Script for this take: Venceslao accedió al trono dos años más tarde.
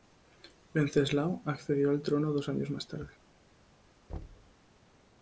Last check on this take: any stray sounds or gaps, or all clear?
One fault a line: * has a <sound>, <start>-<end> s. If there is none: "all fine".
* has a thud, 4.1-4.5 s